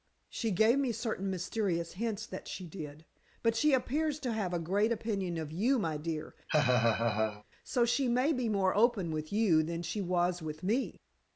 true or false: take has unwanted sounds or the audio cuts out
true